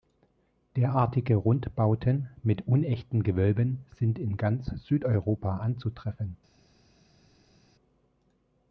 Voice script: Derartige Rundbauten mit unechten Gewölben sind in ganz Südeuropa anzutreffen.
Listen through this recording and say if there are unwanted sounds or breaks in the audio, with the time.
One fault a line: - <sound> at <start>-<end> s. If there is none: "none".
none